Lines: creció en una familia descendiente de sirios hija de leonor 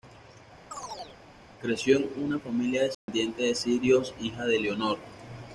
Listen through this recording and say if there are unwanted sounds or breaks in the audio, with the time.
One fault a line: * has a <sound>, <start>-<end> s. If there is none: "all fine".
* has a chirp, 0.7-1.2 s
* has a dropout, 2.9-3.1 s